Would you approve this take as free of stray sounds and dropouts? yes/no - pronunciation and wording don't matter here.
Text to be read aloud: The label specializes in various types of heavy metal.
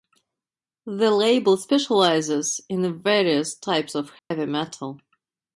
no